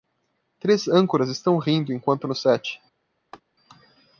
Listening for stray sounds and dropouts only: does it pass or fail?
fail